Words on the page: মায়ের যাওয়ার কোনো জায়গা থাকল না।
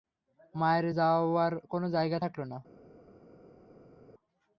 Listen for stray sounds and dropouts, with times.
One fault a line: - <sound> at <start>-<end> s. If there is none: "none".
none